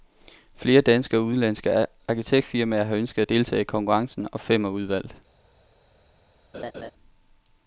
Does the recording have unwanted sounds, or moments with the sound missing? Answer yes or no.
yes